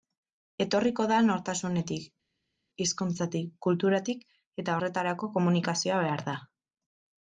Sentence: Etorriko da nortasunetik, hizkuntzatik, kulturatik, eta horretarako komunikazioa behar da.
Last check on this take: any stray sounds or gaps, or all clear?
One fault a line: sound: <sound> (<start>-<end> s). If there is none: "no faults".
no faults